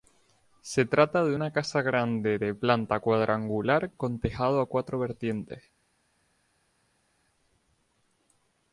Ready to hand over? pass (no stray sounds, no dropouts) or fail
pass